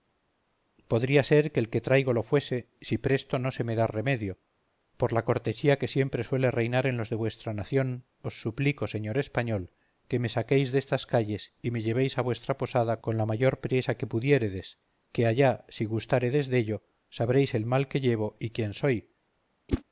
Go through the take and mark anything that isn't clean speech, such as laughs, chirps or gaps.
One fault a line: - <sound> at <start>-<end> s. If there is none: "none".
- whoosh at 19.7-19.8 s